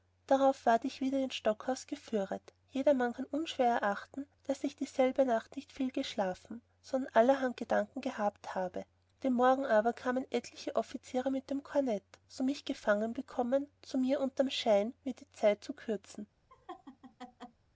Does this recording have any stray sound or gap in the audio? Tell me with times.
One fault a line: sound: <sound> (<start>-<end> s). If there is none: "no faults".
sound: laugh (16.5-17.6 s)